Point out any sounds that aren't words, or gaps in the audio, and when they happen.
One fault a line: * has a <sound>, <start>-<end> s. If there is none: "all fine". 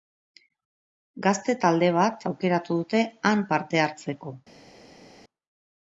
all fine